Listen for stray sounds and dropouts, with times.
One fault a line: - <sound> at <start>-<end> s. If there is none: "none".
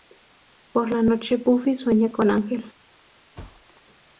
- thud at 3.4-3.8 s